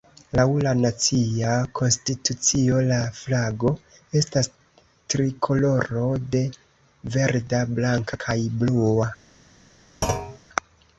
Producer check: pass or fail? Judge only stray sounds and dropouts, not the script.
fail